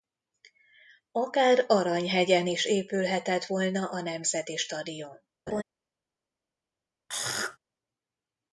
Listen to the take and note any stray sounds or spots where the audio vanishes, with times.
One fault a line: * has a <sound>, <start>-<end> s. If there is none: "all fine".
* has a laugh, 5.5-5.6 s
* has a throat clearing, 7.1-7.6 s